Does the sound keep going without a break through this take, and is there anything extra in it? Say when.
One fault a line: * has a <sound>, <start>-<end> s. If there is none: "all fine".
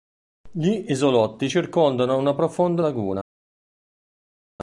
all fine